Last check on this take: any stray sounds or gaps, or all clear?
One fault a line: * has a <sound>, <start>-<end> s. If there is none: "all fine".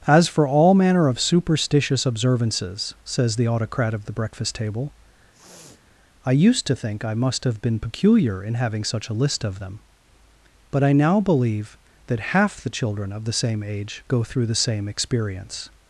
* has a sniff, 5.3-5.8 s